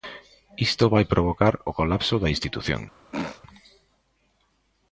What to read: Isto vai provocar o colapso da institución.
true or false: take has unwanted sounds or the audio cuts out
true